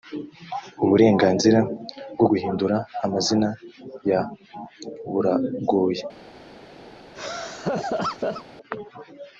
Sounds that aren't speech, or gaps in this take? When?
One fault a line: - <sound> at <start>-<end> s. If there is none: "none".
- laugh at 7.1-8.4 s